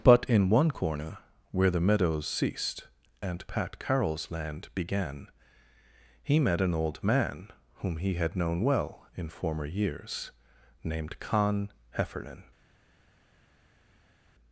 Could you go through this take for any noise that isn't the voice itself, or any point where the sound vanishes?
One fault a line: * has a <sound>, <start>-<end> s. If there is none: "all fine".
all fine